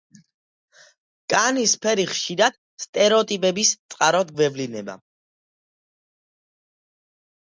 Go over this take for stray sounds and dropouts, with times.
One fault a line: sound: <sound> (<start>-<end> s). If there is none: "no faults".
no faults